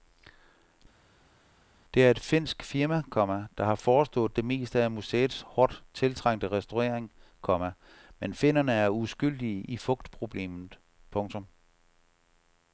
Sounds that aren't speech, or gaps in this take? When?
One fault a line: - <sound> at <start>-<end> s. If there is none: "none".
none